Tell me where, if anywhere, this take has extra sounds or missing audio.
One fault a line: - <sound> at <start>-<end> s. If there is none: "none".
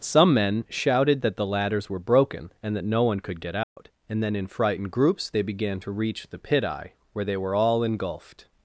- dropout at 3.6-3.8 s